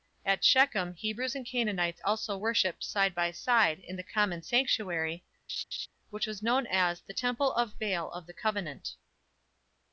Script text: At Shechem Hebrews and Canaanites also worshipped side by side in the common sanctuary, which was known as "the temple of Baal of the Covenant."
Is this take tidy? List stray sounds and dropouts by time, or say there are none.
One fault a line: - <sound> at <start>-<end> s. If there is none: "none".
- laugh at 5.5-5.9 s